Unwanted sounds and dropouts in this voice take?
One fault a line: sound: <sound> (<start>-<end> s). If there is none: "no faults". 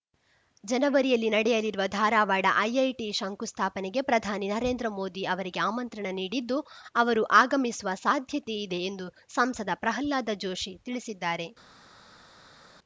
no faults